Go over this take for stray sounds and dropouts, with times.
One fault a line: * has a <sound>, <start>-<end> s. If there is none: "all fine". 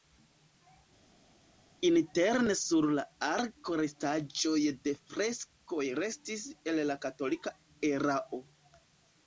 all fine